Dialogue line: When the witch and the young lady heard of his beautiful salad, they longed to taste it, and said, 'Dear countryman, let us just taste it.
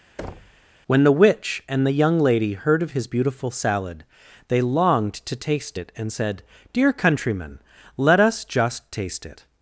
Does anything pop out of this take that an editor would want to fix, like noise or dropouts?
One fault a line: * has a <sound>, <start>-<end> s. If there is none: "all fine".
* has a thud, 0.2-0.6 s